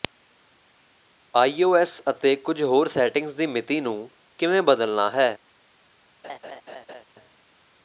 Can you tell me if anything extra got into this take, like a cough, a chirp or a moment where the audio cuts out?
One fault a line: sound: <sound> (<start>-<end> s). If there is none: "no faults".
sound: laugh (6.2-7.0 s)